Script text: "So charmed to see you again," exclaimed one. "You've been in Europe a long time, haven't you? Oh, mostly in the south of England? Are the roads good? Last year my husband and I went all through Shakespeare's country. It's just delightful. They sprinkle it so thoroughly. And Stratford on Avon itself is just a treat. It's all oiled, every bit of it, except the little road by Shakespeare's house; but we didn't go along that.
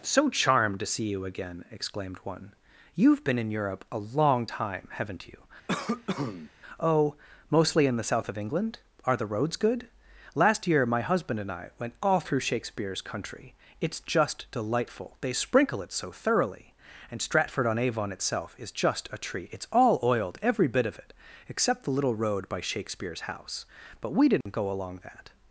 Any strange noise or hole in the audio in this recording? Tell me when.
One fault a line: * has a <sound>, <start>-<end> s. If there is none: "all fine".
* has a cough, 5.7-6.5 s
* has a dropout, 24.4-24.5 s